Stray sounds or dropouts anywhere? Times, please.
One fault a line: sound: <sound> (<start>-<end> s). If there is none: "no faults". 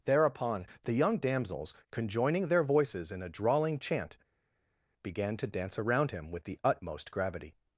no faults